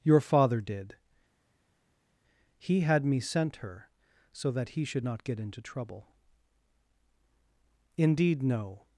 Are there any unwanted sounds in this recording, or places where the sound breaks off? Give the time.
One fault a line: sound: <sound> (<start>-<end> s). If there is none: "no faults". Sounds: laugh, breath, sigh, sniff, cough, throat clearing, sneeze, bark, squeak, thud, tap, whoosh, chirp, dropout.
no faults